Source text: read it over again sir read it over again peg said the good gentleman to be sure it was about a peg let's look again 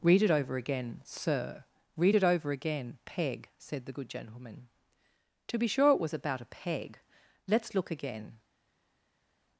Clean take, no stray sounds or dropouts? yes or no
yes